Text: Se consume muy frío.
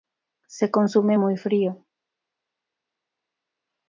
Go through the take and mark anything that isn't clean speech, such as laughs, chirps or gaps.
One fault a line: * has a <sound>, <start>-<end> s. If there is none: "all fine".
all fine